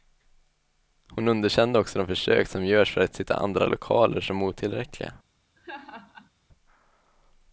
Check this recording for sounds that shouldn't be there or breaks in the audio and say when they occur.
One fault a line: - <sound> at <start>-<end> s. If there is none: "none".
- laugh at 5.6-6.3 s